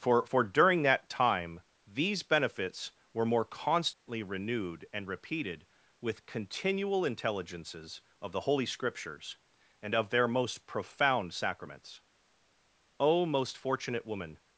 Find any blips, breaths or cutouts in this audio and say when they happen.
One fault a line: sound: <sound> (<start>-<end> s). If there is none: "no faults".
sound: dropout (3.9-4.1 s)